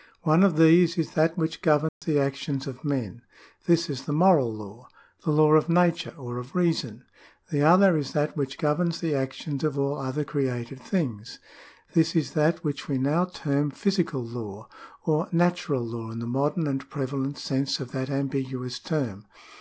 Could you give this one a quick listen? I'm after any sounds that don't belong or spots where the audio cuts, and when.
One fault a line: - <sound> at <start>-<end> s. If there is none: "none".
- dropout at 1.9-2.0 s